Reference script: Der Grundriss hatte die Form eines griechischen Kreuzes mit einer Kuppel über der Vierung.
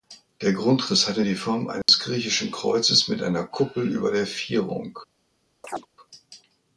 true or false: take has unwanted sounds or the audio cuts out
true